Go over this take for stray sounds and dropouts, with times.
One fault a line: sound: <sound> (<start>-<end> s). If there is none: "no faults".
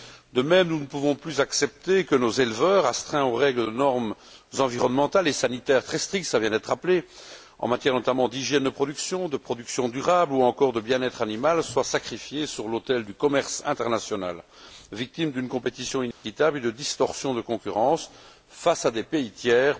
sound: dropout (16.1-16.2 s)